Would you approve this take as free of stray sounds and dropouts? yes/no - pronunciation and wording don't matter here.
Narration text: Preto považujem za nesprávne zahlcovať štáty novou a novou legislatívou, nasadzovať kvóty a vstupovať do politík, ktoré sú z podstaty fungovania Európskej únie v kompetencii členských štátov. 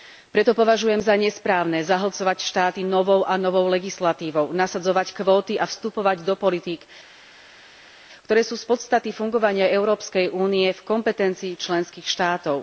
yes